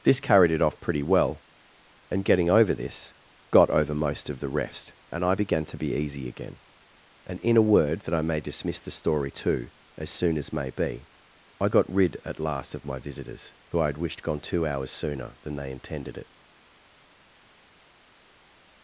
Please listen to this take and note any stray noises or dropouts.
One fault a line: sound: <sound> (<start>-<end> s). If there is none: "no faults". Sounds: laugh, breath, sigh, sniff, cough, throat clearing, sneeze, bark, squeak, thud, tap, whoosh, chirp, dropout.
no faults